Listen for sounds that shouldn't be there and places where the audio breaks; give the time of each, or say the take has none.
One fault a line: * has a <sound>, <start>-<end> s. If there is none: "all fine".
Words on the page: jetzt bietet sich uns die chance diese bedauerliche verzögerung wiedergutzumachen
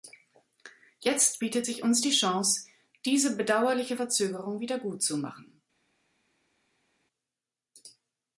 all fine